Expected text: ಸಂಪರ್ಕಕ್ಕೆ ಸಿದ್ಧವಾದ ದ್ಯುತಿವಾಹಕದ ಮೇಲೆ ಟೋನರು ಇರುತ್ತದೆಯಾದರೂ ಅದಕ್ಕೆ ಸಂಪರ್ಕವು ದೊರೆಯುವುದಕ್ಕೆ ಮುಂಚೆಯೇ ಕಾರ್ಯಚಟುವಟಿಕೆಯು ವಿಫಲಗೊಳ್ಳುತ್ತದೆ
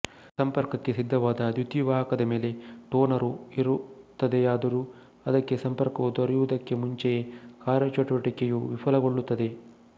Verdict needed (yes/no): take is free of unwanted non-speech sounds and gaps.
yes